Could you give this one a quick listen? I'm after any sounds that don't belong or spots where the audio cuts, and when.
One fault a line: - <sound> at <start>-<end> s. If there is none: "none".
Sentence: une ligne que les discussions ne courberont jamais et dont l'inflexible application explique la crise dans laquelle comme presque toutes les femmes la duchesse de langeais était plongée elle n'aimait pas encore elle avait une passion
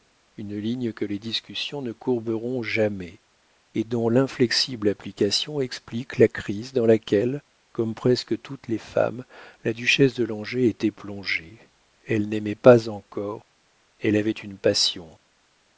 none